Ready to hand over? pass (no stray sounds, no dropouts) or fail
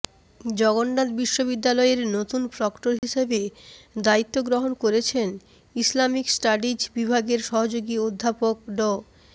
fail